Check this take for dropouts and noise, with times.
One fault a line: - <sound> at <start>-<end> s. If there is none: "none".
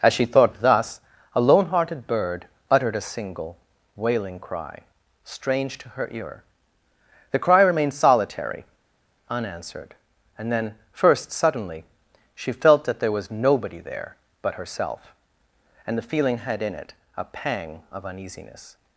none